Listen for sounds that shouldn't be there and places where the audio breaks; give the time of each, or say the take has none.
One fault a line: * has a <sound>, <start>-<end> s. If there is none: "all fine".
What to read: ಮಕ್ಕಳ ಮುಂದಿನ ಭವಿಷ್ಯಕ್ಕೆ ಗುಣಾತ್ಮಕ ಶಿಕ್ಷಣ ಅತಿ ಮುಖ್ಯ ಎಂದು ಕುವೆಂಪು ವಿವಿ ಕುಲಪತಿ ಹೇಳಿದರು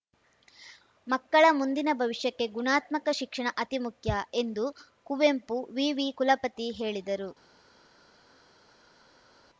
all fine